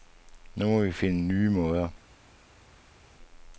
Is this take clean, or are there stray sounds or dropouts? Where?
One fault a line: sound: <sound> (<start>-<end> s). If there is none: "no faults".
no faults